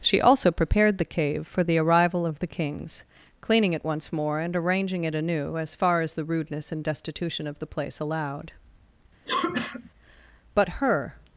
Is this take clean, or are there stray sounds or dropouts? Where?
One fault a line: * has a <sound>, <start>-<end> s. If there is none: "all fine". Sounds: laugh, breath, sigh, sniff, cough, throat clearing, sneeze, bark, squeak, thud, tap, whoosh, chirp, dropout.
* has a cough, 9.3-9.9 s